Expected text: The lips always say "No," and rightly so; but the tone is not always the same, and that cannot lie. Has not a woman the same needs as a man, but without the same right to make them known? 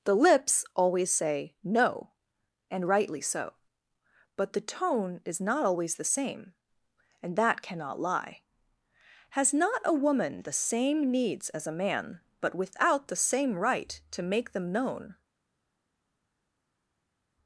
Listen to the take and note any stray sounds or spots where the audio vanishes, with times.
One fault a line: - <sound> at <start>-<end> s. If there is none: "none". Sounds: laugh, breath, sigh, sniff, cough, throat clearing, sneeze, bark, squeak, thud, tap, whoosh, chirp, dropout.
none